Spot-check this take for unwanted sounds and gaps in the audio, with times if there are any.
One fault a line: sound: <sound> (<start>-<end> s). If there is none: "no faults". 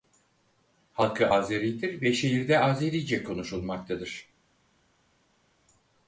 no faults